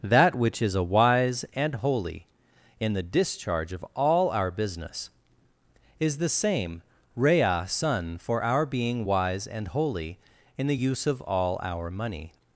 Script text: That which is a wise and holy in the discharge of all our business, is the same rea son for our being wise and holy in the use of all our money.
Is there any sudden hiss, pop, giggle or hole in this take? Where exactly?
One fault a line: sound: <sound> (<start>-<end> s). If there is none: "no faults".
no faults